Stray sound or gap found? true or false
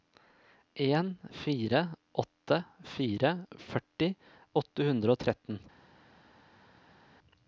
false